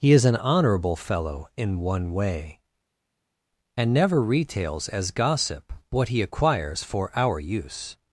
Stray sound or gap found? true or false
false